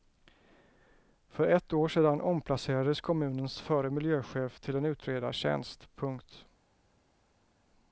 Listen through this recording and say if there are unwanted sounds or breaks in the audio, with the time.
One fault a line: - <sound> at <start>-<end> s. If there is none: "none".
none